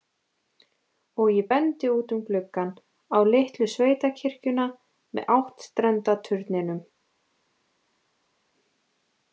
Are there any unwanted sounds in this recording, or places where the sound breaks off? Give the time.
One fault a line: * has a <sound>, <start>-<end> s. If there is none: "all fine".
all fine